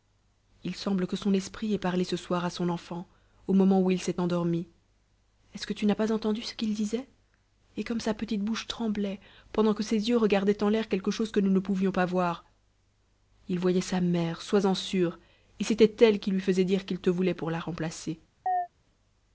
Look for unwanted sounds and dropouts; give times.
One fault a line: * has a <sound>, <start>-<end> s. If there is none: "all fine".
* has a chirp, 18.5-18.7 s